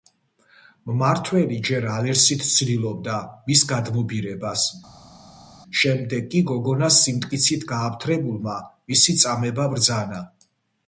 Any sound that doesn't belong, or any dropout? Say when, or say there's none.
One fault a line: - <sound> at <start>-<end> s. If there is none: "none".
none